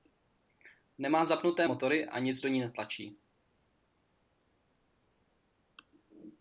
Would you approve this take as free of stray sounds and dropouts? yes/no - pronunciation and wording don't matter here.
yes